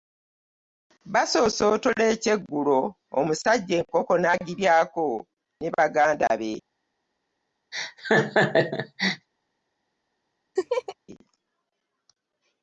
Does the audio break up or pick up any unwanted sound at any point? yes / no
yes